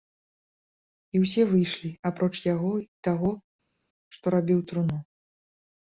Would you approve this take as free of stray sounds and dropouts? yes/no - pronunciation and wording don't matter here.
yes